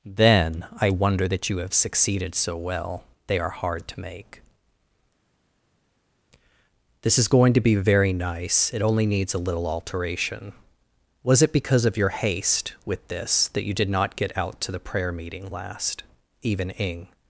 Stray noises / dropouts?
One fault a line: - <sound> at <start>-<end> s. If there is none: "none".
none